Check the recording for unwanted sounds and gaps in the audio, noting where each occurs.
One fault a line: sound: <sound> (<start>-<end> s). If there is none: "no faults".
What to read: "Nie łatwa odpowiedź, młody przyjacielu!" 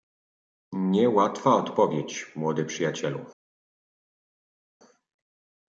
no faults